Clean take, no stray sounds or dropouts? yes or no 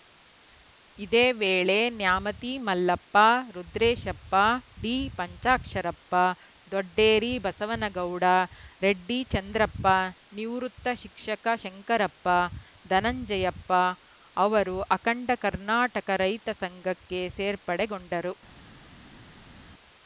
yes